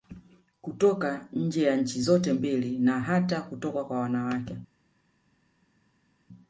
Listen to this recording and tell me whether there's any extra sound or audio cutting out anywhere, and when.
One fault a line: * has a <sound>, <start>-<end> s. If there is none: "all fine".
all fine